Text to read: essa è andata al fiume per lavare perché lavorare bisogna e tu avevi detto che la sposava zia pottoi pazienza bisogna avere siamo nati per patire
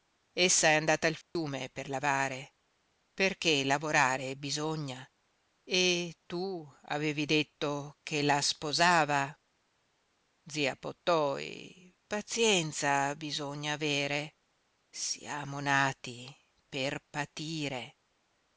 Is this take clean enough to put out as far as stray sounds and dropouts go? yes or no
no